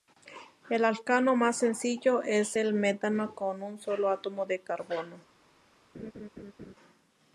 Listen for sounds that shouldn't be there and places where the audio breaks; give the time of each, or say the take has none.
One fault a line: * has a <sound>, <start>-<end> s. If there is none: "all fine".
* has a laugh, 5.9-6.7 s